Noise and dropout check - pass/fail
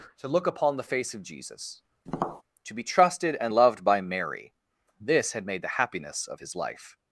fail